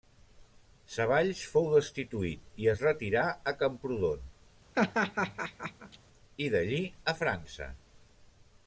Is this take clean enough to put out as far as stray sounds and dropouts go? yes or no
no